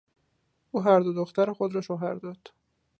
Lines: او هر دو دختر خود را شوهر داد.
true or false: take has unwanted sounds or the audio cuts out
false